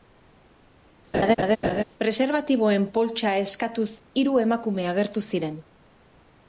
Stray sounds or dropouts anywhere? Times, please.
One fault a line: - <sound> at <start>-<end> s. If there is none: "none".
- laugh at 1.1-1.8 s